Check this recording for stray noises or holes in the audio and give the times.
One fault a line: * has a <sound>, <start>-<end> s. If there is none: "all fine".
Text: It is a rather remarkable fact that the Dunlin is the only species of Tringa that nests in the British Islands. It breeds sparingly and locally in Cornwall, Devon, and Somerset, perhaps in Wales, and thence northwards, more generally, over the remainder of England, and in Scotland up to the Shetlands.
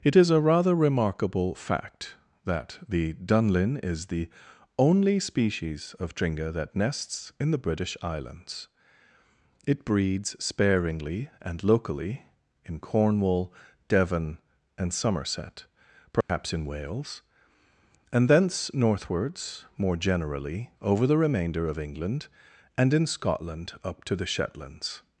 * has a dropout, 16.2-16.3 s